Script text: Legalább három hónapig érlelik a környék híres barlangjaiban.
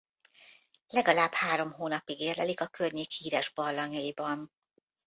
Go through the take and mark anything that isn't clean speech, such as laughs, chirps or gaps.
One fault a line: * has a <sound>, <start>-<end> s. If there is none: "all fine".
all fine